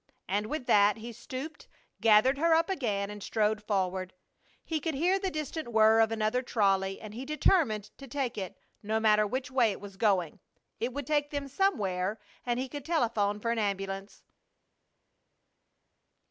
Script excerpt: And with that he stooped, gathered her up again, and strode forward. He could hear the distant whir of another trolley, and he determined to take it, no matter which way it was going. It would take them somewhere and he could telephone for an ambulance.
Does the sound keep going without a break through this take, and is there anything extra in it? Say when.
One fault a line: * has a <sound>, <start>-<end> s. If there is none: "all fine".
all fine